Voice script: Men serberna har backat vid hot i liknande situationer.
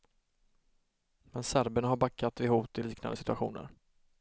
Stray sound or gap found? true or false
false